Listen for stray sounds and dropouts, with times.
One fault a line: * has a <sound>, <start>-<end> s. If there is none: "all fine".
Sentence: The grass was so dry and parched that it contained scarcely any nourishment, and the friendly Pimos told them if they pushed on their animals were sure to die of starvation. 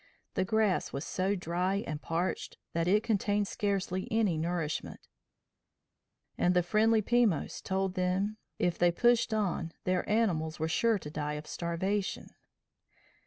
all fine